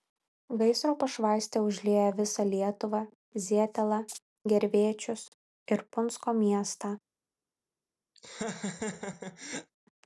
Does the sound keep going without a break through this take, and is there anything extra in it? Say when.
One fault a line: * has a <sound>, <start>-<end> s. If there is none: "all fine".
* has a laugh, 8.2-9.7 s